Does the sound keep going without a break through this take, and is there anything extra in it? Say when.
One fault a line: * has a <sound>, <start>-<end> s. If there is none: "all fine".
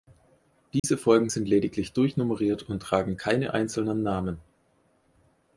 * has a dropout, 0.8-0.8 s